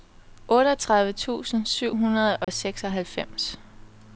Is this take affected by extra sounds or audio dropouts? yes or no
yes